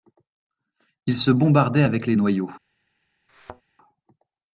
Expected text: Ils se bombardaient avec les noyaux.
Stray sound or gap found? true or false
true